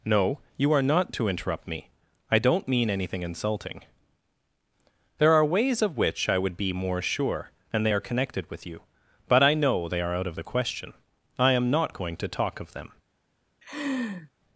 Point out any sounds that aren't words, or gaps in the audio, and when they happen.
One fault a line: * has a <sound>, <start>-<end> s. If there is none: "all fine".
* has a laugh, 13.6-14.3 s